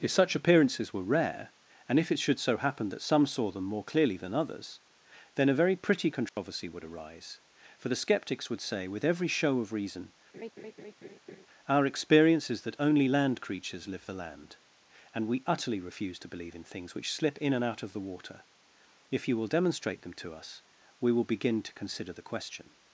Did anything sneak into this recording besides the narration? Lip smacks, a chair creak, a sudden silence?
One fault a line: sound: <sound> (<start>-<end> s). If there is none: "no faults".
sound: dropout (6.3-6.4 s)
sound: laugh (10.3-11.5 s)